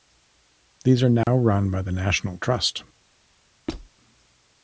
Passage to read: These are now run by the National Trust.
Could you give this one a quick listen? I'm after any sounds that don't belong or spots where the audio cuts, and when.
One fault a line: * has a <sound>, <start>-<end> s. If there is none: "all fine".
* has a dropout, 1.2-1.3 s
* has a squeak, 3.7-3.9 s